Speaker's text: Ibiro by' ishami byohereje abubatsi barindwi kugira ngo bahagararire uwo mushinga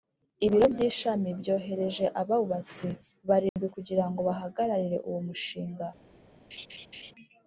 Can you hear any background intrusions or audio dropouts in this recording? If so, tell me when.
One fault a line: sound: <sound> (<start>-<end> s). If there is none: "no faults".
sound: dropout (3.5-3.6 s)
sound: laugh (6.5-7.1 s)